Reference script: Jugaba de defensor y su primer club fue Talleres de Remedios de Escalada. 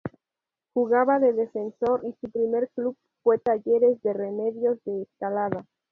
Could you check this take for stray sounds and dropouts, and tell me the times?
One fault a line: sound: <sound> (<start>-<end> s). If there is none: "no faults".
no faults